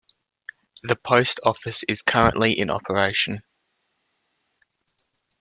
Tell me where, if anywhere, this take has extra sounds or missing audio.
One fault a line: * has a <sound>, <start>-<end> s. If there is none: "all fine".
all fine